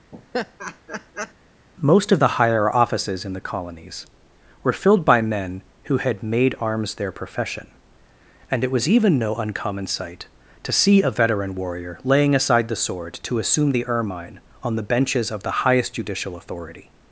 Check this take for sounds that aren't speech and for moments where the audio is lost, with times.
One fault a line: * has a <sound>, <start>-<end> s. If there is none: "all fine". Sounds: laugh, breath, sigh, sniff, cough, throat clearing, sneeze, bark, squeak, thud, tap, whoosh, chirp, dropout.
* has a laugh, 0.1-1.3 s